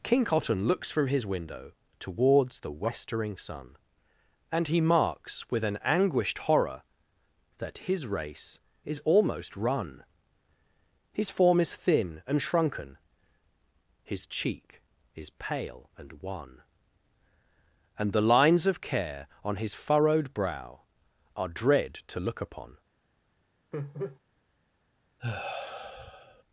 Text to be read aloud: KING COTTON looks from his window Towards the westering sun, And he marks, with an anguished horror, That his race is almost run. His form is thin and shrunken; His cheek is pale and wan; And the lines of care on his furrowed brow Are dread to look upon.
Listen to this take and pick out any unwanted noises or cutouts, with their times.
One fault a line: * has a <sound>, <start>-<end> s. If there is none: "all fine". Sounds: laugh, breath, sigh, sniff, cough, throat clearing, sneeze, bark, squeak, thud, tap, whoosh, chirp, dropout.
* has a laugh, 23.7-24.2 s
* has a sigh, 25.2-26.4 s